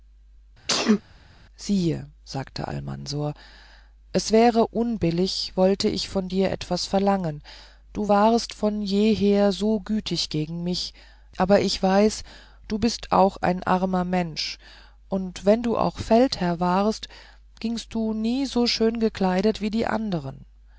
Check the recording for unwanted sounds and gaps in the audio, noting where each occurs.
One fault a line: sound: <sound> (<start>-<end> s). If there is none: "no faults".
sound: sneeze (0.7-1.0 s)